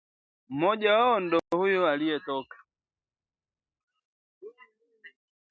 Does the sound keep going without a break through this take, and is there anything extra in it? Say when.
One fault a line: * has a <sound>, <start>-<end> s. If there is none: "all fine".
all fine